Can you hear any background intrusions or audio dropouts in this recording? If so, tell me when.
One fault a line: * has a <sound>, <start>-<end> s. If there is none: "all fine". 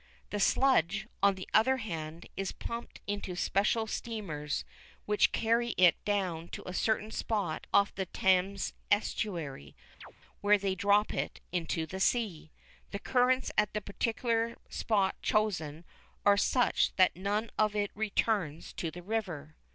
* has a chirp, 10.0-10.1 s